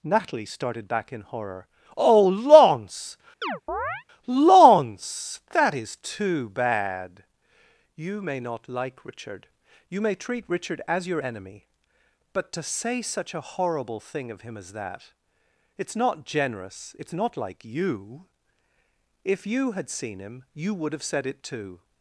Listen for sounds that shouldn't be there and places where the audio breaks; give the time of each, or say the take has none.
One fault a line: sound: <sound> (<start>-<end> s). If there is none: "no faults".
sound: chirp (3.4-4.0 s)